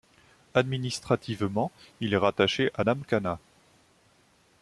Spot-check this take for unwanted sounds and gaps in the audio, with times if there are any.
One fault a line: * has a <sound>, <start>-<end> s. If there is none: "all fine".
all fine